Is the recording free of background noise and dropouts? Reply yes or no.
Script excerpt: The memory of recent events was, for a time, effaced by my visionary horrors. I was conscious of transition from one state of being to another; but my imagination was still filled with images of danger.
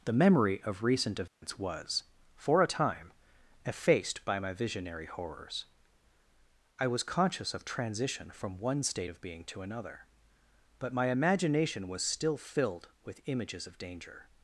no